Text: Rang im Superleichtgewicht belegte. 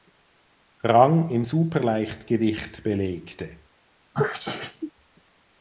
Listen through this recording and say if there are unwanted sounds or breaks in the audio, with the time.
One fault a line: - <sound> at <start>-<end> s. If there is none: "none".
- sneeze at 4.1-4.9 s